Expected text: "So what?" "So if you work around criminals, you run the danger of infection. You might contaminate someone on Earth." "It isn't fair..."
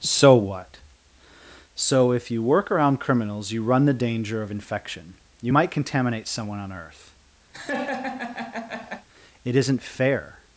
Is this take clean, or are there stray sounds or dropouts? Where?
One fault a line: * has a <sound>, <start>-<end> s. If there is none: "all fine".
* has a laugh, 7.5-9.1 s